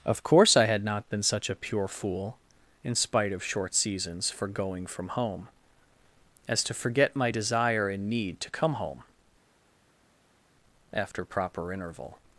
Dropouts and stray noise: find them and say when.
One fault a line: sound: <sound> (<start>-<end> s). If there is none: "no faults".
no faults